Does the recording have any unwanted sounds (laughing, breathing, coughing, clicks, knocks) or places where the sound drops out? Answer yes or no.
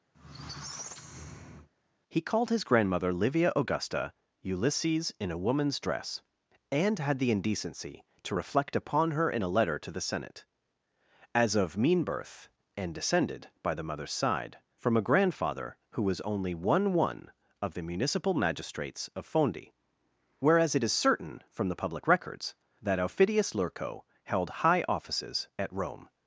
yes